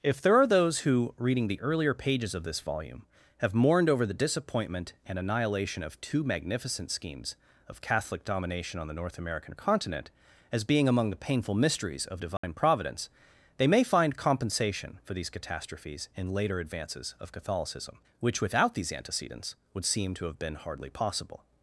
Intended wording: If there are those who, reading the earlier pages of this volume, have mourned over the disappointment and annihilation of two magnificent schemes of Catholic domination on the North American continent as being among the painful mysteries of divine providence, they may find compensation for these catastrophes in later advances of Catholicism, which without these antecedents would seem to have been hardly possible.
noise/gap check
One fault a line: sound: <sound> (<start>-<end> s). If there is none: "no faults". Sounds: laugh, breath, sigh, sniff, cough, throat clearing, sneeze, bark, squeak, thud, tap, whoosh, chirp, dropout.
sound: dropout (12.4-12.4 s)